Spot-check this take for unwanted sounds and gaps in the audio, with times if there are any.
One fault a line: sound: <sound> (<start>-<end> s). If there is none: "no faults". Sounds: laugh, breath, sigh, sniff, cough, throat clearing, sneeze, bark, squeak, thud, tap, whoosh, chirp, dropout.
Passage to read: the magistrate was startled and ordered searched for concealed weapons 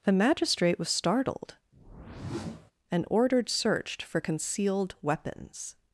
sound: whoosh (1.7-2.7 s)